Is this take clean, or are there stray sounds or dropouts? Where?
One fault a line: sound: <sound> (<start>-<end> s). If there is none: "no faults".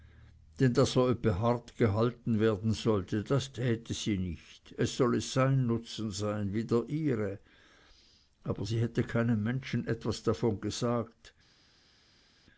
no faults